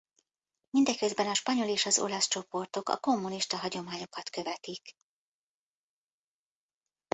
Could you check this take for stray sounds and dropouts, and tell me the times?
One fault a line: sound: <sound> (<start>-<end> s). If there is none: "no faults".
no faults